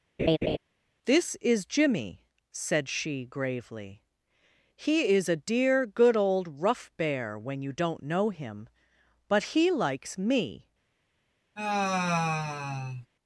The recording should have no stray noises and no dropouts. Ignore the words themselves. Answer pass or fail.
fail